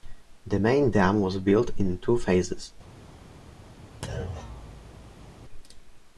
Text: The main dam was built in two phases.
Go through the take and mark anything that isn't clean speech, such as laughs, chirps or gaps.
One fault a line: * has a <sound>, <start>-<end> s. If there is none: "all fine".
* has a thud, 4.0-5.3 s